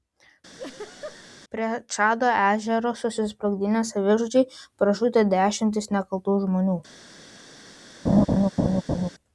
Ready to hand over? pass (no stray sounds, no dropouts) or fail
fail